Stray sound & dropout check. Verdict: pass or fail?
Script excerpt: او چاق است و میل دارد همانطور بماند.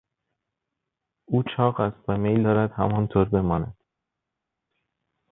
pass